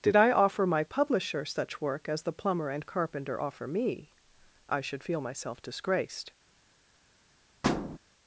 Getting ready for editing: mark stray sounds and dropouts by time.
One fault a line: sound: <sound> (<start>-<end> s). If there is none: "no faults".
sound: thud (7.6-8.0 s)